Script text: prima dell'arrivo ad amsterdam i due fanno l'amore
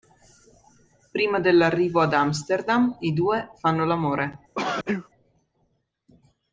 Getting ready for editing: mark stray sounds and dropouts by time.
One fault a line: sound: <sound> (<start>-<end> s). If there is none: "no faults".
sound: sneeze (4.6-5.1 s)